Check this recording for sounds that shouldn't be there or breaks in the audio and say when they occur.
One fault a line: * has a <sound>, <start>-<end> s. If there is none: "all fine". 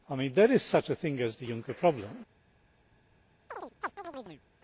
* has a chirp, 3.5-4.4 s